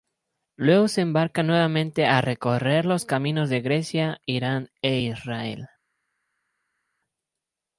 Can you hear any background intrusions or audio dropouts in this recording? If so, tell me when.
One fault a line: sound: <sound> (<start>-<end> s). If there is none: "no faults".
no faults